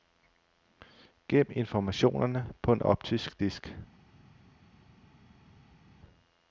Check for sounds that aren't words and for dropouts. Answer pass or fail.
pass